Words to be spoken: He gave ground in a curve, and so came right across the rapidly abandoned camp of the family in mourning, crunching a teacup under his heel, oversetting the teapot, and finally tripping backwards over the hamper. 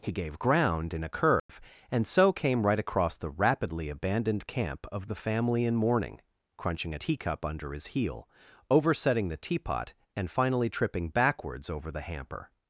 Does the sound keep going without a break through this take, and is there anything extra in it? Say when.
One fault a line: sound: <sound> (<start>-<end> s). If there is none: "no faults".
sound: dropout (1.4-1.5 s)